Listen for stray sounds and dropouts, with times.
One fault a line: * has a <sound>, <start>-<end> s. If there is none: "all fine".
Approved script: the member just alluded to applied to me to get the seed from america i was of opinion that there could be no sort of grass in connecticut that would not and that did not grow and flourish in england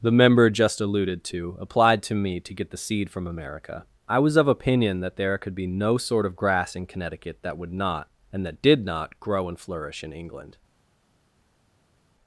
all fine